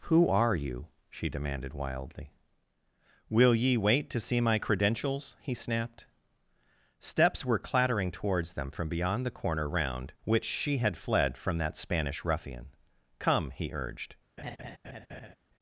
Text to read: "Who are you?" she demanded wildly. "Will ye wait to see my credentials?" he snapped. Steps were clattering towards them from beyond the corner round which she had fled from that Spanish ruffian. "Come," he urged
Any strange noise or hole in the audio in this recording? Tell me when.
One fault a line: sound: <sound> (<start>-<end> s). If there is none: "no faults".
sound: laugh (14.4-15.4 s)